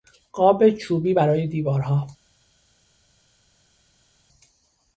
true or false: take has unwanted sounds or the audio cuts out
false